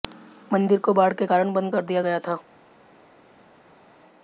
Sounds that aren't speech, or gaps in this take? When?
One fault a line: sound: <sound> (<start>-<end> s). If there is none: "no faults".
no faults